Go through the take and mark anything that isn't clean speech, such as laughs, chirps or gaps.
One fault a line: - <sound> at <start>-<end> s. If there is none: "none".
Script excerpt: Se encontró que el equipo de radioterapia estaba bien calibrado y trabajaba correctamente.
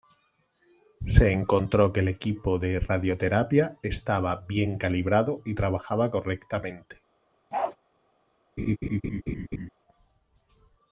- bark at 7.5-7.8 s
- laugh at 8.6-9.7 s